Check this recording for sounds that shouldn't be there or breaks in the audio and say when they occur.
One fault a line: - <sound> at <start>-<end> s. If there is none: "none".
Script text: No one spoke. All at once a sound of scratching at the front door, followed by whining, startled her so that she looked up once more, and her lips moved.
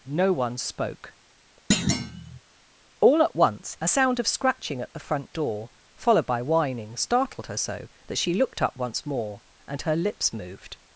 - thud at 1.7-2.4 s